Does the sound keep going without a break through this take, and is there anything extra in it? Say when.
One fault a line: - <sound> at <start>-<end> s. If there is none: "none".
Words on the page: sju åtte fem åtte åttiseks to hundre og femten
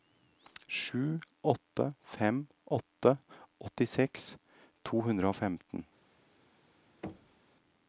- thud at 7.0-7.4 s